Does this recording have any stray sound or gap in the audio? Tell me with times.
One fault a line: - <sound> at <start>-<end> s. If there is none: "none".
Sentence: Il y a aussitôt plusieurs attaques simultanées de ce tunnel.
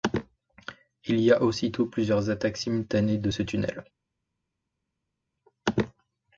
none